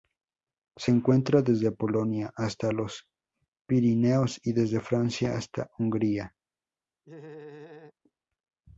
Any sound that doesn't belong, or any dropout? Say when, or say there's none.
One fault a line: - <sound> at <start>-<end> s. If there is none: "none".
- laugh at 7.0-7.9 s